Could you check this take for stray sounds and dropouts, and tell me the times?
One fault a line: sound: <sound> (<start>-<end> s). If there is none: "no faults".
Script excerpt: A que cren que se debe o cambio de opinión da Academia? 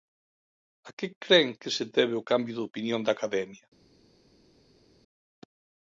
no faults